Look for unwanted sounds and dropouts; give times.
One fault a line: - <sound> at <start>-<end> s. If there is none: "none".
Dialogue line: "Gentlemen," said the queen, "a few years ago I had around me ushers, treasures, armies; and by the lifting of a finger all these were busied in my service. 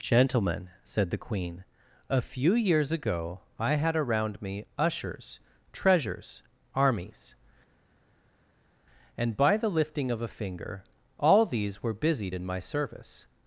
none